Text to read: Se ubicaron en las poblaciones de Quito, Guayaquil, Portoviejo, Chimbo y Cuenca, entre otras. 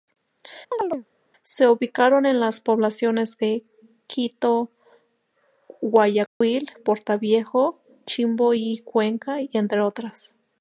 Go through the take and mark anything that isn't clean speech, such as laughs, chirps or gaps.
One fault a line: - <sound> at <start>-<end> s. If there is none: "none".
- chirp at 0.7-1.1 s
- dropout at 6.3-6.4 s